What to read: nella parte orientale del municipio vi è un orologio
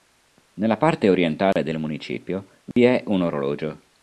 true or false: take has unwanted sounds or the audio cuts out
true